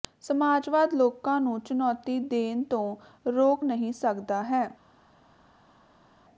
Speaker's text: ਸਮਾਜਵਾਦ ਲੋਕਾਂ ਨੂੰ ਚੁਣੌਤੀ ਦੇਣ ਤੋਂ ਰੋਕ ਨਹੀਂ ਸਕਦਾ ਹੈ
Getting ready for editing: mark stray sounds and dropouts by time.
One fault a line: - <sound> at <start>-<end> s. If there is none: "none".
none